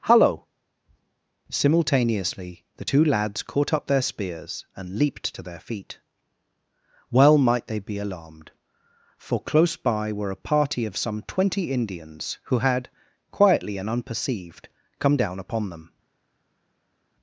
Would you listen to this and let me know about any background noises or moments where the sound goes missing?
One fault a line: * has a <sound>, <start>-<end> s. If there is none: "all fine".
all fine